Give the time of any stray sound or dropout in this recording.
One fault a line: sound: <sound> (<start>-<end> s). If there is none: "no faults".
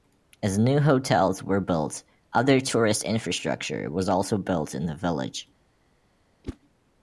sound: whoosh (6.4-6.6 s)